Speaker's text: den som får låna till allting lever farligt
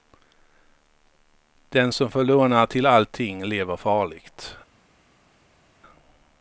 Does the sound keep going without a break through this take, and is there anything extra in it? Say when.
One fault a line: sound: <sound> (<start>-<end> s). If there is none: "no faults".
no faults